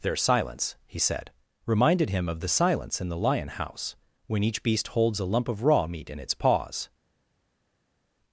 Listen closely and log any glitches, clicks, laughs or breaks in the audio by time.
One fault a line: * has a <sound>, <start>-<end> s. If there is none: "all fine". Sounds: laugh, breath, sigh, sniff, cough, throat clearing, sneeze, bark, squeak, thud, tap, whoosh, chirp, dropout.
all fine